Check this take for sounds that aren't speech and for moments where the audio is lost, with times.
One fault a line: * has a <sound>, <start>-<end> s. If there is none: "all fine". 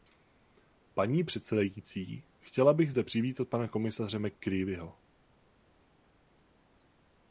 all fine